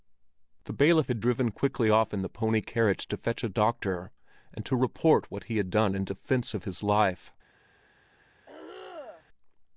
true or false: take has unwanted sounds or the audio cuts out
true